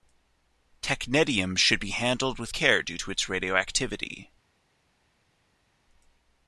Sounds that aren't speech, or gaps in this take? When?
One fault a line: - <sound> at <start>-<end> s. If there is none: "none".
none